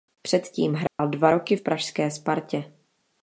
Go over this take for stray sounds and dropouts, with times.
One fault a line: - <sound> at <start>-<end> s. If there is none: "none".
- dropout at 0.9-1.0 s